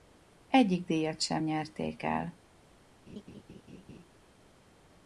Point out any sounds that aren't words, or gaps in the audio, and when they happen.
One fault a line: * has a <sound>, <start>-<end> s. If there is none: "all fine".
* has a laugh, 3.1-4.1 s